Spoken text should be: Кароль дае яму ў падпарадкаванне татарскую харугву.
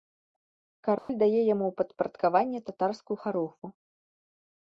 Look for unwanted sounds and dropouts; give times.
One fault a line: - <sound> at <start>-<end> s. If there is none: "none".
- dropout at 1.0-1.1 s